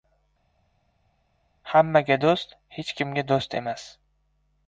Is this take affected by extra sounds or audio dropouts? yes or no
no